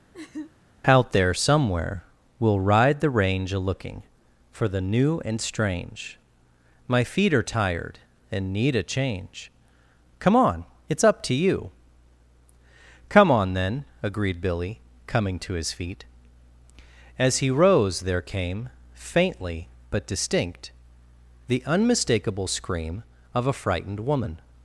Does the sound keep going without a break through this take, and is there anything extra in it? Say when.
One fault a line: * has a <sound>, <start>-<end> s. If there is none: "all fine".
* has a laugh, 0.1-0.5 s